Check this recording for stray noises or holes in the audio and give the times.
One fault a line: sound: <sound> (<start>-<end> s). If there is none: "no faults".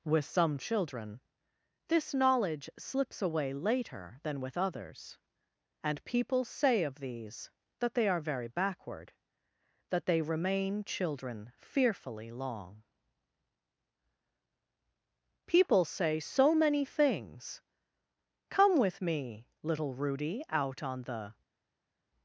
no faults